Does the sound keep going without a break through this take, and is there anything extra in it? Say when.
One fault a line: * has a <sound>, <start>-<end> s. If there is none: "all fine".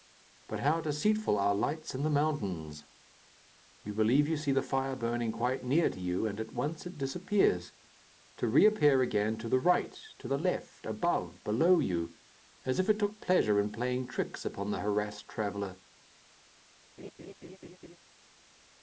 * has a laugh, 17.0-18.0 s